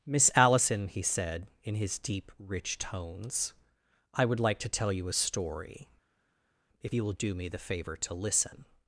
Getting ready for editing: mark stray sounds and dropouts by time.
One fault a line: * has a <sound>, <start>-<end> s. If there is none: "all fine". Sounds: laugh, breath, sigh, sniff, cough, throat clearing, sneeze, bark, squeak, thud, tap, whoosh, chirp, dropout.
all fine